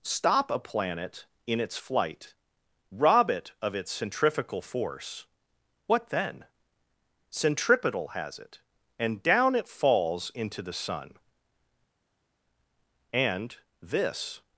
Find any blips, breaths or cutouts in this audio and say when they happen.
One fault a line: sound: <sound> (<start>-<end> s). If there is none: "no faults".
no faults